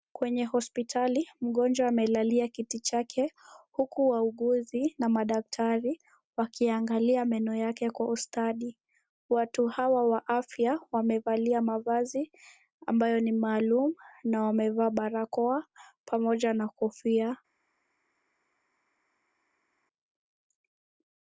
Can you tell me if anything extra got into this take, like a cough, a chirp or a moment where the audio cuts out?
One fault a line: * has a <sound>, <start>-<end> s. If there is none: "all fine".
all fine